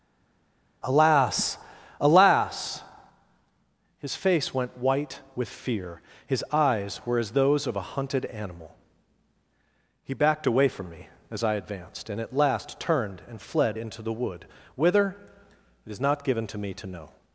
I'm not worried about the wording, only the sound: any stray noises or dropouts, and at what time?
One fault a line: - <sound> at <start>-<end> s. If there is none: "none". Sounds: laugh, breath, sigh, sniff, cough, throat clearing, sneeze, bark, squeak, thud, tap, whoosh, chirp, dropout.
none